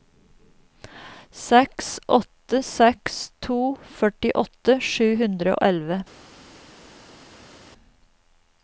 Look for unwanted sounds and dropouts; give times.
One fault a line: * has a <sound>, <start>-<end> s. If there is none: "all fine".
all fine